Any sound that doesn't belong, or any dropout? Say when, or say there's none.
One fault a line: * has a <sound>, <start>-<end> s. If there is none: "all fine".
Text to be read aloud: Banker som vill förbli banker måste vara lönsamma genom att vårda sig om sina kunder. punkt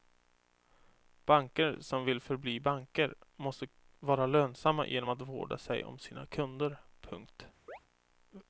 * has a chirp, 7.7-7.8 s